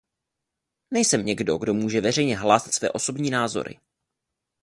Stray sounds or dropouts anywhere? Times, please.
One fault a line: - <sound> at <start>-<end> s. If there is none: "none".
none